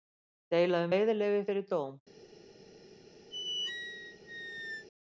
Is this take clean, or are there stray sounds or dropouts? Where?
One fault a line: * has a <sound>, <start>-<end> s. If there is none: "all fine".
* has a squeak, 3.3-4.9 s